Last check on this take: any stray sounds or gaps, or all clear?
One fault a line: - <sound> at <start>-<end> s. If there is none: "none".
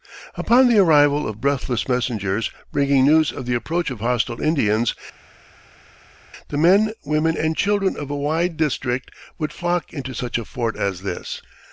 none